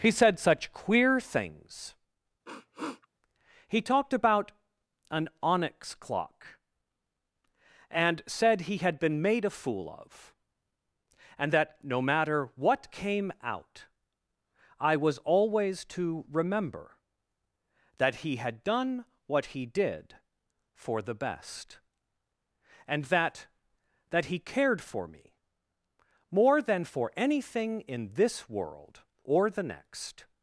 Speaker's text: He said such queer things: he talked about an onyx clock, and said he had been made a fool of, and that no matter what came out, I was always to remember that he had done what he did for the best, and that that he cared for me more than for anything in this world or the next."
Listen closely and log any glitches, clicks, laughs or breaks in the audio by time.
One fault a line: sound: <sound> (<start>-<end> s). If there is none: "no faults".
sound: sniff (2.5-3.1 s)